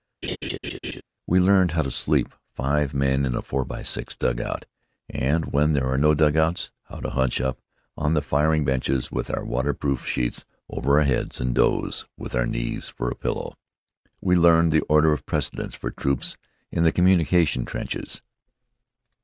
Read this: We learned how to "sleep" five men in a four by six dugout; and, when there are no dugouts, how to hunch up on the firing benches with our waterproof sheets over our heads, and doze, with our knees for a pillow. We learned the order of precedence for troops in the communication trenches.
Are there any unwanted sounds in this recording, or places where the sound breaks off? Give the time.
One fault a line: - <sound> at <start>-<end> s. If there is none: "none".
- laugh at 0.2-1.0 s